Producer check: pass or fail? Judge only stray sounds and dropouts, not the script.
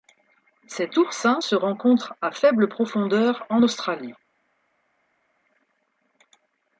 pass